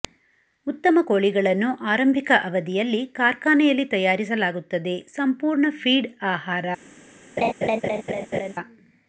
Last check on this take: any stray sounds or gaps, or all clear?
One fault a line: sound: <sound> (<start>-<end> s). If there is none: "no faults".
sound: laugh (7.4-8.5 s)